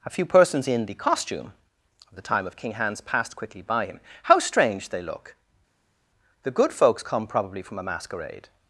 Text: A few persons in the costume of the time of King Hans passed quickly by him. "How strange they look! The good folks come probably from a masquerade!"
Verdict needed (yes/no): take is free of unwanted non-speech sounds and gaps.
yes